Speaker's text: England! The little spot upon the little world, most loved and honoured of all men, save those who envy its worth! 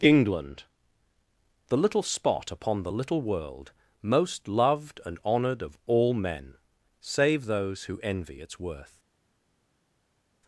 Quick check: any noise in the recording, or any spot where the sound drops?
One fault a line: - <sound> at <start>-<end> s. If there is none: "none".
none